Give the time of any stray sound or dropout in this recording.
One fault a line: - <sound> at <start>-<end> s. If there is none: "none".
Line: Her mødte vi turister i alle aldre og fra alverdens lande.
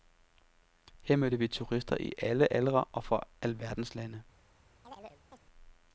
- chirp at 4.8-5.4 s